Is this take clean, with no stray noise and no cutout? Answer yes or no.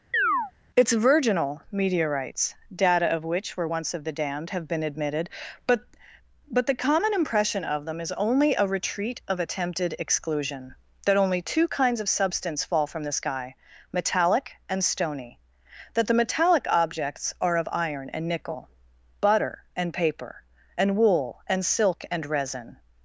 no